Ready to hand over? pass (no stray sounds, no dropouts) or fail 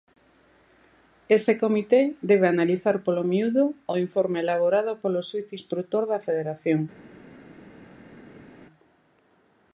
pass